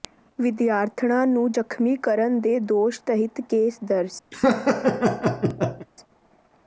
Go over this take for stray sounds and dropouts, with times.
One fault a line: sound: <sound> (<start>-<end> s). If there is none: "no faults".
sound: laugh (4.3-5.9 s)